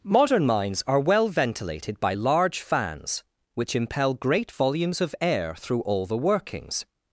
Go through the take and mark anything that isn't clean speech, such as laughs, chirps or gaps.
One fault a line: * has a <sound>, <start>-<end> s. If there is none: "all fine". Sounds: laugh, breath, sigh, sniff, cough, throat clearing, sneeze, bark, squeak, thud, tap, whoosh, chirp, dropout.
all fine